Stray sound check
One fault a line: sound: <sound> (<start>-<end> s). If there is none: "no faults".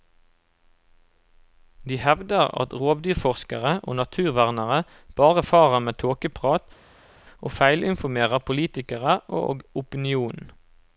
no faults